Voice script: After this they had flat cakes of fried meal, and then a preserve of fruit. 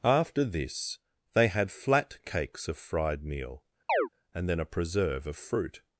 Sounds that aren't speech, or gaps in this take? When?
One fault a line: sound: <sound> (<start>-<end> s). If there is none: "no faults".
sound: chirp (3.9-4.1 s)